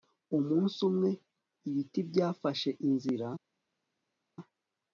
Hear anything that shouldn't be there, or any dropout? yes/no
no